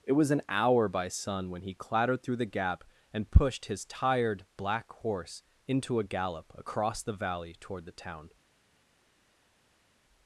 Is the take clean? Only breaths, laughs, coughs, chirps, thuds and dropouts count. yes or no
yes